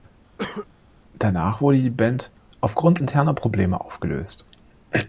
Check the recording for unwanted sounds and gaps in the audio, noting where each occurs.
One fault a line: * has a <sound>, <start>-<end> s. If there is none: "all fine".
* has a cough, 0.4-0.7 s